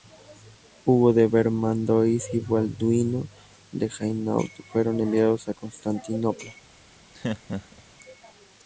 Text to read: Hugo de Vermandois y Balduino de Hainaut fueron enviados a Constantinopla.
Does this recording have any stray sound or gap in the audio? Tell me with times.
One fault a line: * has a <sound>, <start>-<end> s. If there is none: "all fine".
* has a laugh, 7.1-7.8 s